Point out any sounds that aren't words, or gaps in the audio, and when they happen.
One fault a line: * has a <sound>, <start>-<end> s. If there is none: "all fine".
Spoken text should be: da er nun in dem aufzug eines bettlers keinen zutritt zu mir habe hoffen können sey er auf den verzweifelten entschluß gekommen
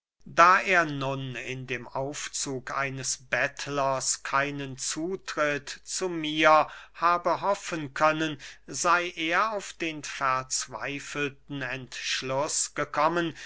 all fine